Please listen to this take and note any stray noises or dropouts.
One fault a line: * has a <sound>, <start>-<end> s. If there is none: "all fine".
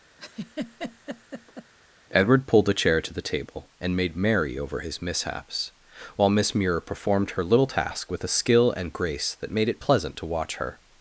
* has a laugh, 0.2-1.7 s